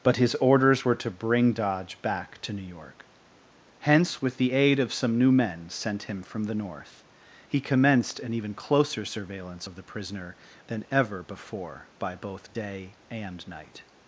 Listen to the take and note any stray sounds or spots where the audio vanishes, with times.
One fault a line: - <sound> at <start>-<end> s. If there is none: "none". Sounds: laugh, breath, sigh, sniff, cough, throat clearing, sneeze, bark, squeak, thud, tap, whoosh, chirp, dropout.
none